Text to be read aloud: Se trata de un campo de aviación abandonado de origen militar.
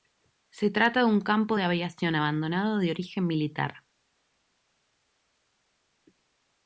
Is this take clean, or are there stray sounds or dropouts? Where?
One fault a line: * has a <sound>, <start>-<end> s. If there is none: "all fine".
all fine